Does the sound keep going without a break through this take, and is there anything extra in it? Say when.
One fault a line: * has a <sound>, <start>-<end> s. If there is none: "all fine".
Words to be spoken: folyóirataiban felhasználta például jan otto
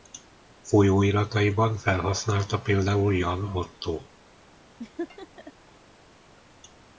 * has a laugh, 4.8-5.5 s